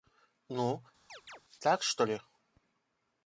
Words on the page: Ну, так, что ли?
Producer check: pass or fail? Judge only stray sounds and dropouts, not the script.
fail